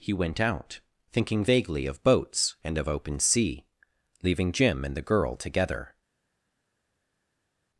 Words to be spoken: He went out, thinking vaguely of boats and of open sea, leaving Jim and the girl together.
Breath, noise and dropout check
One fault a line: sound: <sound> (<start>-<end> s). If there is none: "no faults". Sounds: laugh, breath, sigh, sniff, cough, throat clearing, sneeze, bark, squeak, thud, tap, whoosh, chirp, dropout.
no faults